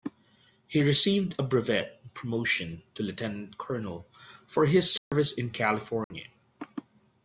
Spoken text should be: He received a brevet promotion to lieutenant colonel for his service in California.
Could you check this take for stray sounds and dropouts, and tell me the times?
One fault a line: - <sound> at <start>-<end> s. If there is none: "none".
- dropout at 5.0-5.1 s
- dropout at 6.0-6.1 s